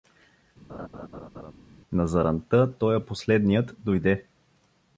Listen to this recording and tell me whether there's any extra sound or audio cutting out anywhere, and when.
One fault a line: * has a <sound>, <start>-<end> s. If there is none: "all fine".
* has a laugh, 0.7-1.5 s